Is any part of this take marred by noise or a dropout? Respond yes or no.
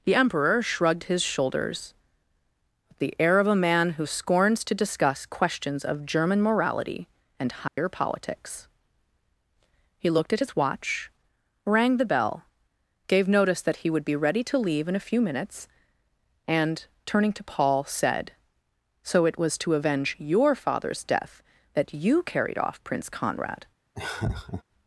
yes